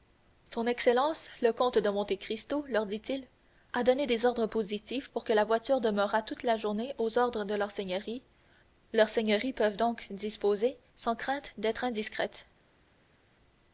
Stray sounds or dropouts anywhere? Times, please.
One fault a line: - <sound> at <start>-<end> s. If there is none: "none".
none